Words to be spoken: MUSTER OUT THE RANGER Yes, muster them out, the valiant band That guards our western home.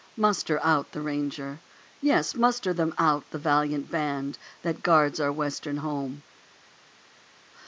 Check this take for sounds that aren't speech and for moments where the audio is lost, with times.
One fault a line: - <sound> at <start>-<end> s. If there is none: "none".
none